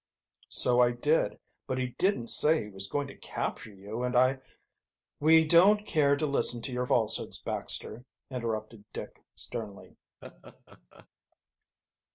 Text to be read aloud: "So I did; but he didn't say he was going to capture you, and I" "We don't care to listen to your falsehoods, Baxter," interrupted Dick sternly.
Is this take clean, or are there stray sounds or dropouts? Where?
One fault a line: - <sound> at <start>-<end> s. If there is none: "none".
- laugh at 10.2-11.1 s